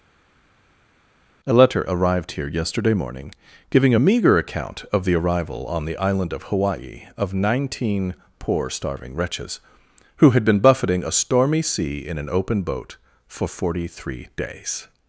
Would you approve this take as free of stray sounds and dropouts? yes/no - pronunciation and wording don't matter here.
yes